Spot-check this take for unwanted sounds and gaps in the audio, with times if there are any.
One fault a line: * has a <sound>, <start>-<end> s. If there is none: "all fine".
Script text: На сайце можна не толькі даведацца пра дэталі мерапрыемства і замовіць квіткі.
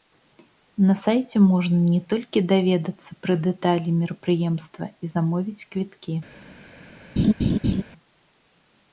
* has a laugh, 7.2-7.8 s